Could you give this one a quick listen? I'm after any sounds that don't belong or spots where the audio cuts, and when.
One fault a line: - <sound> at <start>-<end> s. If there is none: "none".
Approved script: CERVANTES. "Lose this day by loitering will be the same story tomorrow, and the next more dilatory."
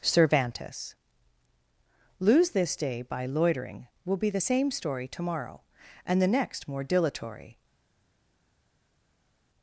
none